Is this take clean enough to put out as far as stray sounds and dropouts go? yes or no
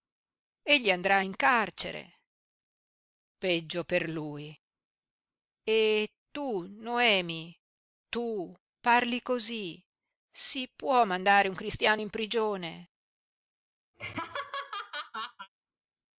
no